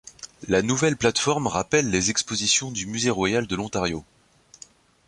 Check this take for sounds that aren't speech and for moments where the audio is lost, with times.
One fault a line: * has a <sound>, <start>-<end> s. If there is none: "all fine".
all fine